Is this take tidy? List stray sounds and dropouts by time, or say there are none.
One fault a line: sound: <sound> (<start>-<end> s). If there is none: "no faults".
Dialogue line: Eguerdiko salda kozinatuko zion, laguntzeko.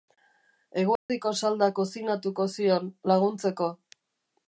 sound: dropout (1.0-1.1 s)